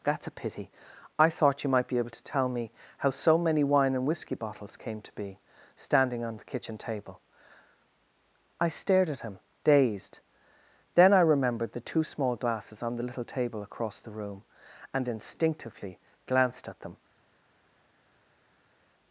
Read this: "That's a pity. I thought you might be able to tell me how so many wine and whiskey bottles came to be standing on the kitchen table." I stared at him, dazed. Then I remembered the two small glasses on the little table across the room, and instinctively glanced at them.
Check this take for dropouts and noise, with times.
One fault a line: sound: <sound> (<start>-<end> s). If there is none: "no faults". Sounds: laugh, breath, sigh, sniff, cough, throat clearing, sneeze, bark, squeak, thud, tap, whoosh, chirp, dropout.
no faults